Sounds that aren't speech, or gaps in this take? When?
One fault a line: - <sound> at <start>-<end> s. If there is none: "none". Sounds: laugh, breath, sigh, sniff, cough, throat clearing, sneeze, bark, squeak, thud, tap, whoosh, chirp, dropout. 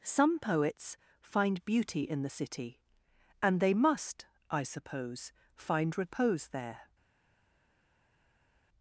none